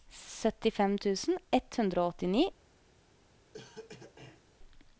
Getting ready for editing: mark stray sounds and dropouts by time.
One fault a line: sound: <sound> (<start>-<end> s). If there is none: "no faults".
sound: cough (3.5-4.4 s)